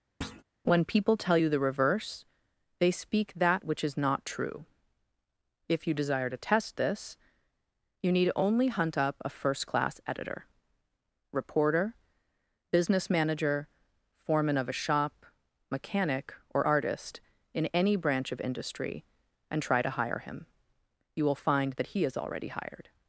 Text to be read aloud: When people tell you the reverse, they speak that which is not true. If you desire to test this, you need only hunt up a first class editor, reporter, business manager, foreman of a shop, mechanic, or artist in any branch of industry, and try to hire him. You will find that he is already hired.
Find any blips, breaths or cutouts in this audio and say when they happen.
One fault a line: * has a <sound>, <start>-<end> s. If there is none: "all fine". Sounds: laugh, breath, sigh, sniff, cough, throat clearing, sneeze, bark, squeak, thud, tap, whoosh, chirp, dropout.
* has a thud, 0.2-0.4 s